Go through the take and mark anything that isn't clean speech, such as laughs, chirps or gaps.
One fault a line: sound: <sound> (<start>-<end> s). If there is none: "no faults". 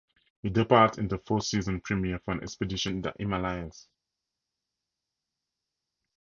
no faults